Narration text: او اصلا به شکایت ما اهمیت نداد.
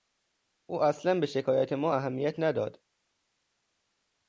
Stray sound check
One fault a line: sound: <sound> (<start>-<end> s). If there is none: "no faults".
no faults